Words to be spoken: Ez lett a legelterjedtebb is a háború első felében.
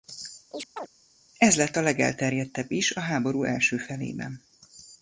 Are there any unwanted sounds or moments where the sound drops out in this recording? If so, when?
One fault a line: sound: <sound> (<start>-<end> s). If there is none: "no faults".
sound: chirp (0.5-0.9 s)